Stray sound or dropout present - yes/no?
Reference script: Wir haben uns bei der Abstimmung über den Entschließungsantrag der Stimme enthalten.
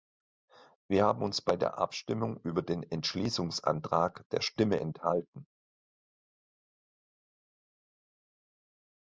no